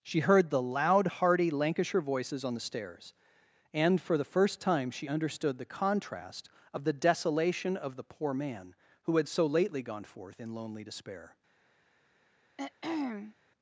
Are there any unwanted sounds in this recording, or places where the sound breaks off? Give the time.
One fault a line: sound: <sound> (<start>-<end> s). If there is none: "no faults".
sound: throat clearing (12.6-13.4 s)